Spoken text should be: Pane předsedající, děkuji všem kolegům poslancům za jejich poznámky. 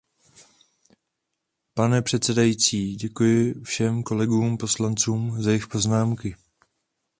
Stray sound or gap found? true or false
false